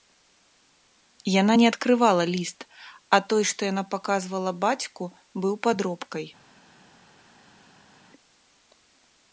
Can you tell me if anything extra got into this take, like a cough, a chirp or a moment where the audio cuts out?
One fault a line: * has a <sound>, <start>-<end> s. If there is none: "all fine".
all fine